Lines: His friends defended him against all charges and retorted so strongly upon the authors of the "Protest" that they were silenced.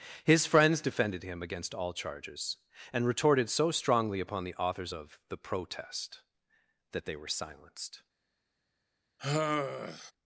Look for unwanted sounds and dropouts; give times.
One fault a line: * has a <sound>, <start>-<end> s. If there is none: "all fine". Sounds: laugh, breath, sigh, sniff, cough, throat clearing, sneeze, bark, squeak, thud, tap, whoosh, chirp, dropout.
* has a sigh, 9.2-10.1 s